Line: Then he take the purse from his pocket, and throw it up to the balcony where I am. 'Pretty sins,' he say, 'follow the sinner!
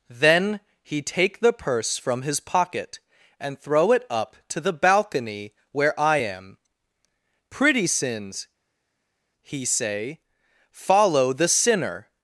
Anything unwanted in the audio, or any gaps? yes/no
no